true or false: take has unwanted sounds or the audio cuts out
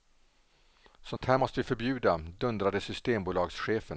true